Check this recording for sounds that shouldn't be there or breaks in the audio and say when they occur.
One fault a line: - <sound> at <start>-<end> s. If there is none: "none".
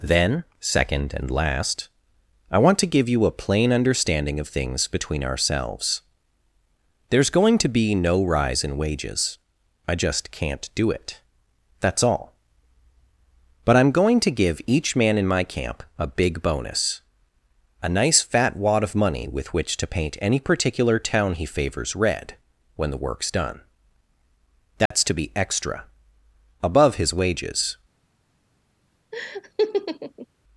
- dropout at 24.9-24.9 s
- laugh at 29.1-30.3 s